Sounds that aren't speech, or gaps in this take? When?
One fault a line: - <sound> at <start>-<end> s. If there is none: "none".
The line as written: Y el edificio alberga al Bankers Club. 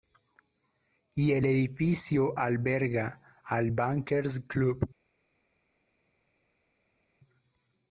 none